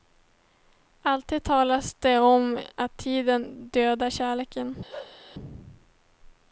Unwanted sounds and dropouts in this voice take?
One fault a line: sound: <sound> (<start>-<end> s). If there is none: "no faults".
sound: bark (4.9-5.2 s)